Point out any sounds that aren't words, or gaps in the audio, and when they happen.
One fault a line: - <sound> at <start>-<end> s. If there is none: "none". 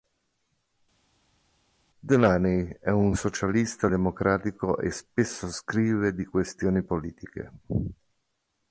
none